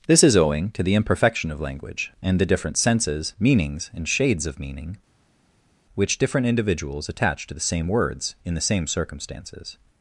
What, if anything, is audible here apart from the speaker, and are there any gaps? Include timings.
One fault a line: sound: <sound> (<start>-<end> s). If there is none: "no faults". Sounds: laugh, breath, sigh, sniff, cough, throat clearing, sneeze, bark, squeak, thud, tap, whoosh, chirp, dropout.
no faults